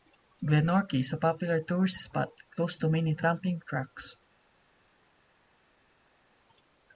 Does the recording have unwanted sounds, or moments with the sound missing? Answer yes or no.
no